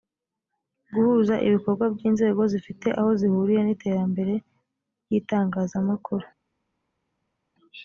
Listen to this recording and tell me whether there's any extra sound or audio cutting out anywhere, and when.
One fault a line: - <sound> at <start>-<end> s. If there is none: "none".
none